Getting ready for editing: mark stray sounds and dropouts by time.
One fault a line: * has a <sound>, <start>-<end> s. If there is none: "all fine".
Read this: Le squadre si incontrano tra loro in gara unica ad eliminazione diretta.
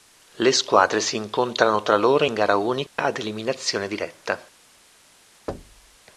* has a dropout, 2.9-3.0 s
* has a thud, 5.5-6.0 s